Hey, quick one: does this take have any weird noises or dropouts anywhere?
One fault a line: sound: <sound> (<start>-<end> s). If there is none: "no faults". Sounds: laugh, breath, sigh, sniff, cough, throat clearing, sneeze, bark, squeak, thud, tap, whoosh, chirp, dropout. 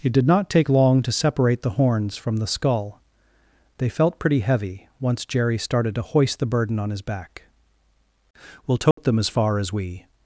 sound: dropout (8.9-9.0 s)